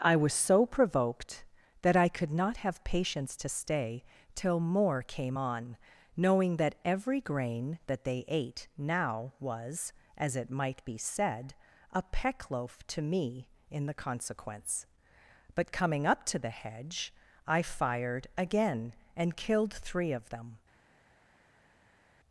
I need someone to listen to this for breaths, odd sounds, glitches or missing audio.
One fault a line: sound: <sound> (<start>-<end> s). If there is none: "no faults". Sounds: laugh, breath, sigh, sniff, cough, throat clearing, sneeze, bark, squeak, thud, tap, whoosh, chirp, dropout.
no faults